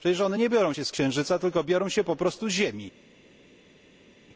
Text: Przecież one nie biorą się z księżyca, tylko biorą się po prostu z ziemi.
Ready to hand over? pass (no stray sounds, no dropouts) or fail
pass